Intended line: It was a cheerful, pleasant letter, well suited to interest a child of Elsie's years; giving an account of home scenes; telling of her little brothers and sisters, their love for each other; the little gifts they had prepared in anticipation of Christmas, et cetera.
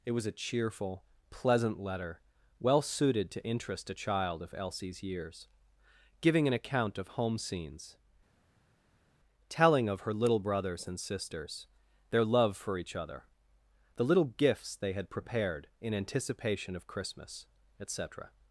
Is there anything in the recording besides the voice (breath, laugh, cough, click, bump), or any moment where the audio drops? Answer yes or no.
no